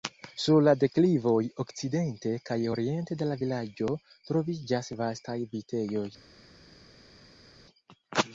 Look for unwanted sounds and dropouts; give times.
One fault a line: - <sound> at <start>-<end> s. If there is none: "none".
none